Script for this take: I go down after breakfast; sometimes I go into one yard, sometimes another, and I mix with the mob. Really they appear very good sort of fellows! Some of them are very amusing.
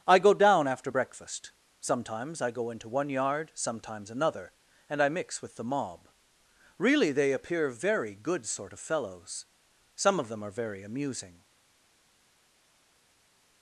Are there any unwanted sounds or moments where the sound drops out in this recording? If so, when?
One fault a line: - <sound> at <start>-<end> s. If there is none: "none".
none